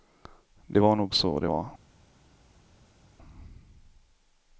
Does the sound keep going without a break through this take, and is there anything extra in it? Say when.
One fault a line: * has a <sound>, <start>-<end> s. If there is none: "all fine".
all fine